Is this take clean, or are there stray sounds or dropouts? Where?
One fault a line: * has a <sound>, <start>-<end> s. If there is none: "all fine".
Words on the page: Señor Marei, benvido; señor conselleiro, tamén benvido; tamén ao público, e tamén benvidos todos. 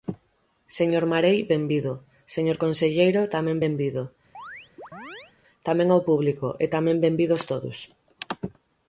* has a chirp, 4.3-5.3 s